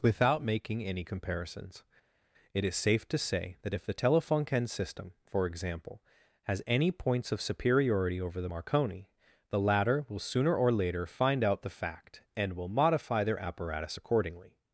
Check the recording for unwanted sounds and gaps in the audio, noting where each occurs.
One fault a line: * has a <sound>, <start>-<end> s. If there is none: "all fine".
all fine